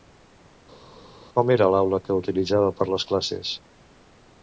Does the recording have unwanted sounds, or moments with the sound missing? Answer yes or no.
no